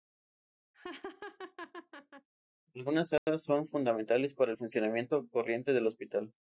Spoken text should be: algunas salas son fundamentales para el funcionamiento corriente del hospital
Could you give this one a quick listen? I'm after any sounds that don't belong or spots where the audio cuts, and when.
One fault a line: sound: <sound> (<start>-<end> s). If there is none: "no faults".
sound: laugh (0.7-2.3 s)
sound: dropout (3.2-3.3 s)